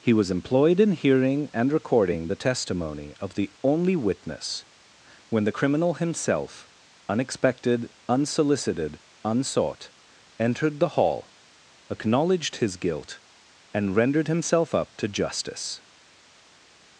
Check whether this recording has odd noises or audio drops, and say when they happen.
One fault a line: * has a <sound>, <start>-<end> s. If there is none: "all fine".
all fine